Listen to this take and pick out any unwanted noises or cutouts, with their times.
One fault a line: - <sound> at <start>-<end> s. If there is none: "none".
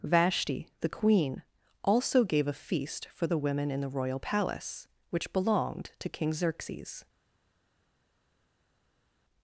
none